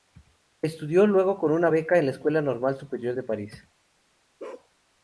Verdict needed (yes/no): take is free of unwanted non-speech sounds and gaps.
no